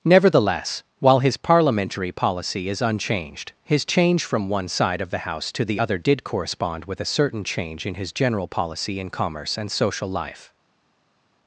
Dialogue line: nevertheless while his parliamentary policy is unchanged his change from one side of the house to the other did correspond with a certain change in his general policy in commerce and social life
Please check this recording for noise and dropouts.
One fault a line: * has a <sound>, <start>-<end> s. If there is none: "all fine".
all fine